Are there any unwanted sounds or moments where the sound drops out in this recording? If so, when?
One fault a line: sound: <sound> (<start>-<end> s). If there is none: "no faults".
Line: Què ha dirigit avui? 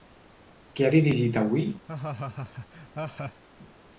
sound: laugh (1.9-3.4 s)